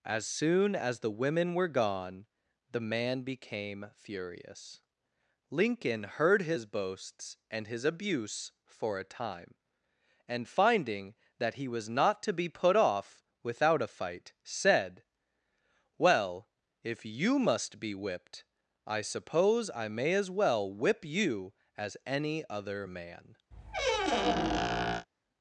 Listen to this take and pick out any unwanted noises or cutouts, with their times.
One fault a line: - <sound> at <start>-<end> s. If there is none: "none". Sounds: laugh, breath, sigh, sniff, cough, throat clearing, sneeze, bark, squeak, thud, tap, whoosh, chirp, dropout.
- squeak at 23.5-25.1 s